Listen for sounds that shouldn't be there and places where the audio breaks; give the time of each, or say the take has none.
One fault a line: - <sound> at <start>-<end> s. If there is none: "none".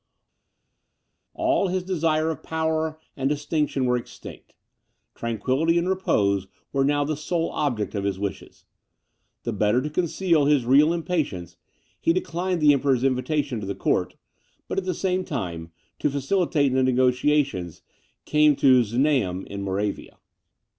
none